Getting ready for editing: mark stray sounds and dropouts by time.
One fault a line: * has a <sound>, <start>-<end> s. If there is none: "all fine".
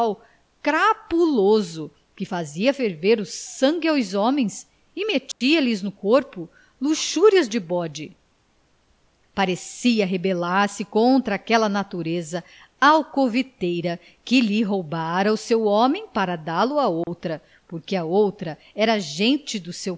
* has a dropout, 5.3-5.4 s
* has a dropout, 17.0-17.1 s